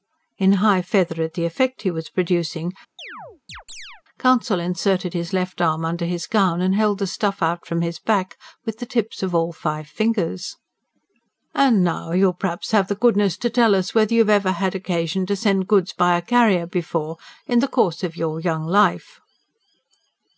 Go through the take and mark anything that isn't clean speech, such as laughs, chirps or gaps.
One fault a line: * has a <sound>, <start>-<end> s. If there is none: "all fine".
* has a chirp, 3.0-4.0 s